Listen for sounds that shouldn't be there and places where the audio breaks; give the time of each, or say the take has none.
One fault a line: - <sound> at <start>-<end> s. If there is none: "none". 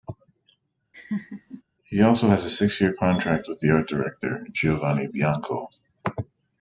- laugh at 0.9-1.6 s